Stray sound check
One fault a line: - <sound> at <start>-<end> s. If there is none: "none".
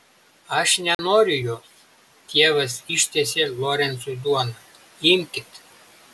- dropout at 0.9-1.0 s